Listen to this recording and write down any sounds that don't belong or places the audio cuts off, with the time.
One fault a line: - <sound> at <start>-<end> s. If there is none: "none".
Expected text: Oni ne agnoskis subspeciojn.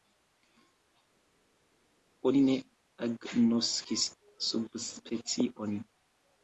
none